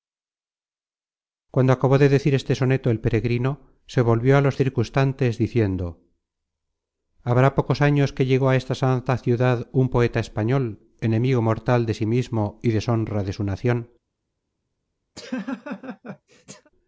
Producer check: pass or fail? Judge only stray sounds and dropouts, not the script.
fail